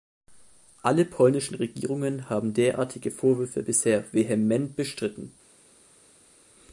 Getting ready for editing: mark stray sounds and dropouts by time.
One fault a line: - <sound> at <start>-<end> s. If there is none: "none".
none